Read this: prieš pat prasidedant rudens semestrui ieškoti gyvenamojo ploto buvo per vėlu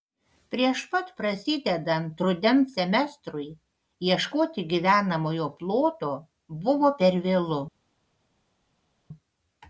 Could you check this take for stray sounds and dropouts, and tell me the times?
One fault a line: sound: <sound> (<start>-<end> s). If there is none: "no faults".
no faults